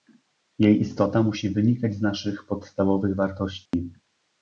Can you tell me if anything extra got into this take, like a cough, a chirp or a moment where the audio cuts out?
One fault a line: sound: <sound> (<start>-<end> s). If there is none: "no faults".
sound: dropout (3.7-3.7 s)